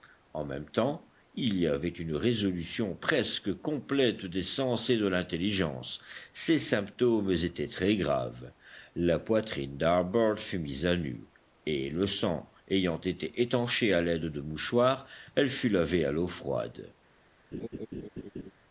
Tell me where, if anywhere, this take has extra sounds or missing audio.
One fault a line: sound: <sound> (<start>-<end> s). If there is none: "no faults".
sound: laugh (17.5-18.5 s)